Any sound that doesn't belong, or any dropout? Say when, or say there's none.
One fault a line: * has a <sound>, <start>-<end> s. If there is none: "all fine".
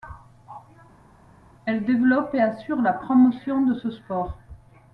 all fine